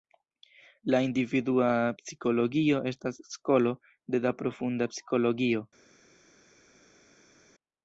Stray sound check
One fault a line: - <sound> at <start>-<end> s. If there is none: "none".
none